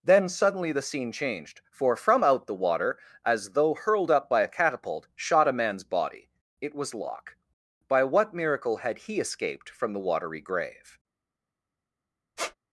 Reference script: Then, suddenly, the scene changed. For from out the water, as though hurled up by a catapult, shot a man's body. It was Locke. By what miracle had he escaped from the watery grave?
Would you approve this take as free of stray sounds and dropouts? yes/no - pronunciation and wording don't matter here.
no